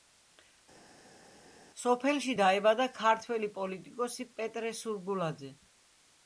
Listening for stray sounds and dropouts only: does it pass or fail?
pass